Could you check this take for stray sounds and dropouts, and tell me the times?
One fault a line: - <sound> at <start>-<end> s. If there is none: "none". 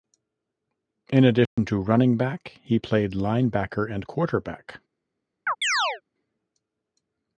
- dropout at 1.5-1.6 s
- chirp at 5.5-6.0 s